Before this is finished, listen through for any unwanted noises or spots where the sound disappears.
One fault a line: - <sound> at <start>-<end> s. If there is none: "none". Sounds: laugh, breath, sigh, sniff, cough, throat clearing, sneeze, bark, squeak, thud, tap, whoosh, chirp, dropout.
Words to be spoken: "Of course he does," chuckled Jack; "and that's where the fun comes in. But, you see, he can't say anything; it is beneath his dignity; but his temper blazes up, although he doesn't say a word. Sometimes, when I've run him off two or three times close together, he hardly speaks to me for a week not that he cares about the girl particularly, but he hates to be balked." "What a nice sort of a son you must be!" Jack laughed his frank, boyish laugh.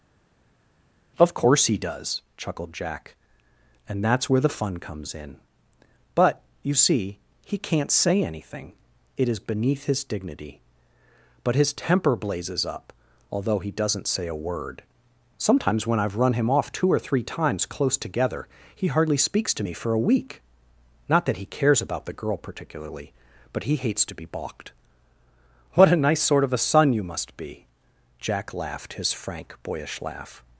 none